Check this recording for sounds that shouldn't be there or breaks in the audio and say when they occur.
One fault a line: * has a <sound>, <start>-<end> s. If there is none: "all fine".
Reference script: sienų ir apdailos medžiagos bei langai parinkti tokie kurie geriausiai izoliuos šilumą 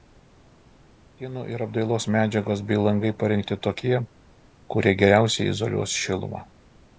all fine